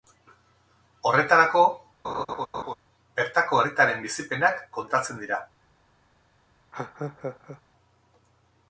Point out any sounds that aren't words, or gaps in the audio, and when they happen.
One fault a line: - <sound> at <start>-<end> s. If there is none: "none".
- laugh at 2.0-2.7 s
- laugh at 6.7-7.6 s